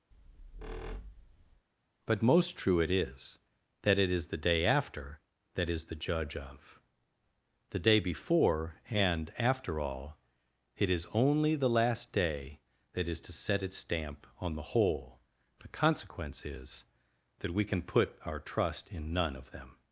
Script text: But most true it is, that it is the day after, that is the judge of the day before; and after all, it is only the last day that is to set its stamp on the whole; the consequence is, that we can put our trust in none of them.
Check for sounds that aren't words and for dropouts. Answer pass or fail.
fail